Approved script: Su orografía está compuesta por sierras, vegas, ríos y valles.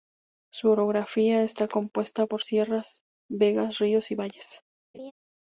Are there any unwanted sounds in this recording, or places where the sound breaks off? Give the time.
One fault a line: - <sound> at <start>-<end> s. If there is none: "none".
- laugh at 4.9-5.1 s